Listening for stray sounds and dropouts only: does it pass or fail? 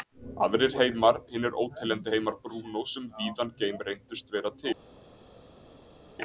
pass